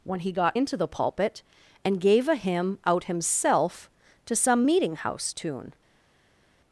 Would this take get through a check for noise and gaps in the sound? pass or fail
pass